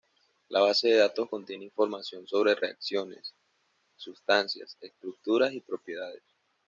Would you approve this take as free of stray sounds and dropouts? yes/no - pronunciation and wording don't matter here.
yes